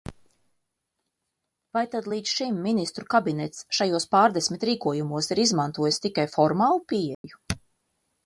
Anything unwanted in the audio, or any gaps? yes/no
yes